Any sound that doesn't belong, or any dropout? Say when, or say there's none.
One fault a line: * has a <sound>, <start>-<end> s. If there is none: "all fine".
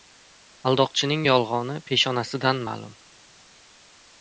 all fine